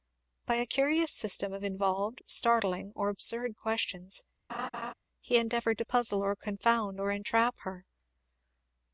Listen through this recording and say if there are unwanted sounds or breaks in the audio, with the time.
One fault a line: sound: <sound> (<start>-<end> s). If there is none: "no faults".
sound: laugh (4.5-4.9 s)